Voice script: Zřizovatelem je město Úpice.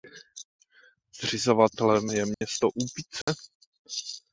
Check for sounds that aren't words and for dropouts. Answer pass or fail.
fail